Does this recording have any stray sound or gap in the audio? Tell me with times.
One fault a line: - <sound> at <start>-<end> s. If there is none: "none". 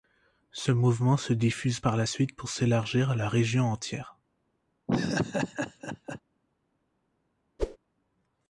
- laugh at 4.9-6.2 s
- whoosh at 7.6-7.8 s